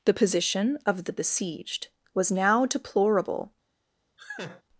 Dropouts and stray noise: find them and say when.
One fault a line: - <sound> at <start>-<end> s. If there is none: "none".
- laugh at 4.2-4.6 s